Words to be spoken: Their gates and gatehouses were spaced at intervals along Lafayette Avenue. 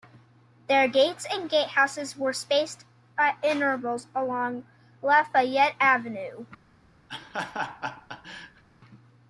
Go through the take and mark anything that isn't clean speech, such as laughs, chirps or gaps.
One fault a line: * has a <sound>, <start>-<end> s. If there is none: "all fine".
* has a laugh, 7.1-8.6 s